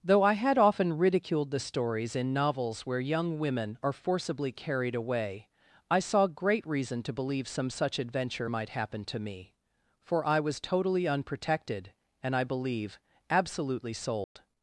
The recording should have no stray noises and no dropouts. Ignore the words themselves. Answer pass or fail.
fail